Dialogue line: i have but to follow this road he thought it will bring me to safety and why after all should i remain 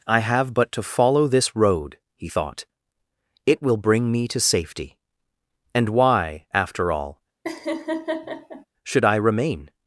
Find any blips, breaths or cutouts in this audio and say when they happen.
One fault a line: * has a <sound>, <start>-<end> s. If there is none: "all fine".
* has a laugh, 7.4-8.7 s